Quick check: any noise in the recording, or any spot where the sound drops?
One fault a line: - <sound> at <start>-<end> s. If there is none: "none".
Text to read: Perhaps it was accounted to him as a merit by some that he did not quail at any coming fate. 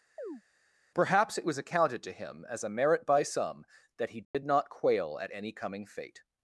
- chirp at 0.2-0.4 s
- dropout at 4.2-4.3 s